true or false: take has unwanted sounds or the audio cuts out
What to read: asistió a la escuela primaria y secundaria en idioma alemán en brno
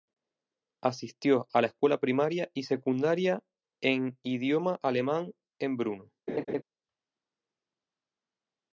true